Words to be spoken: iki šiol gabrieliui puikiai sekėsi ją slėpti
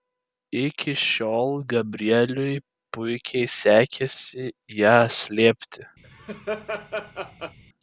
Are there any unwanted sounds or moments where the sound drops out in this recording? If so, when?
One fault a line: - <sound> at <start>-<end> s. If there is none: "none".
- laugh at 6.0-7.6 s